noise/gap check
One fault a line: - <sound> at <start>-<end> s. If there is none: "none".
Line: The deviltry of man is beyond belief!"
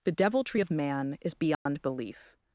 - dropout at 1.5-1.7 s